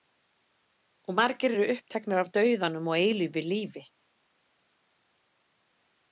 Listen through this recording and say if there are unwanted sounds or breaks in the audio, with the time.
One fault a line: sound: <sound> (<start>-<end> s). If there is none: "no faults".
no faults